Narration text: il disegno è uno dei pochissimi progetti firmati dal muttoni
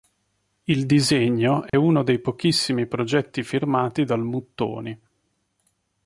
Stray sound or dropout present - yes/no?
yes